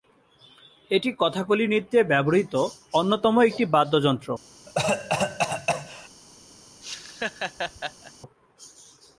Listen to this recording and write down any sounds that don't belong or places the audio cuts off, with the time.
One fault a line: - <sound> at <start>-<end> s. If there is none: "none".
- cough at 4.7-6.1 s
- laugh at 6.8-8.1 s